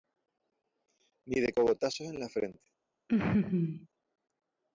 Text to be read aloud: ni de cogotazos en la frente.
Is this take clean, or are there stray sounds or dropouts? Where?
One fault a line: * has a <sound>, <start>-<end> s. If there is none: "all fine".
* has a laugh, 3.1-3.9 s